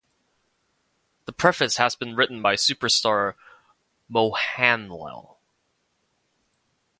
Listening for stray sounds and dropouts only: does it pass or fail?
pass